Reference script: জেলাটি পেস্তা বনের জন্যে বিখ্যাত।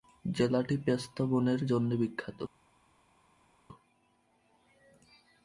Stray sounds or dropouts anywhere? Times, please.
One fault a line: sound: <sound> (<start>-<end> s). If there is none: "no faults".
no faults